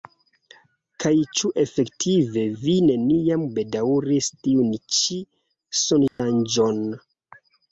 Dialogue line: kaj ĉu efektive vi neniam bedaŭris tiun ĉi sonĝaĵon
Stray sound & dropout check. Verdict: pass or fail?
fail